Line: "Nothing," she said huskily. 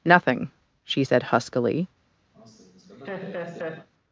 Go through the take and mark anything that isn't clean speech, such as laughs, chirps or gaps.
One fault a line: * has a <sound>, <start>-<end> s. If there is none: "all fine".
* has a laugh, 2.3-3.9 s